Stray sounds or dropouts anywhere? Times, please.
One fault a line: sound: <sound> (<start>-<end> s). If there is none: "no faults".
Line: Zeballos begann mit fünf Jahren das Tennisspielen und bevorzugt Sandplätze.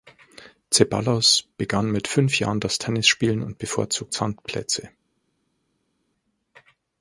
no faults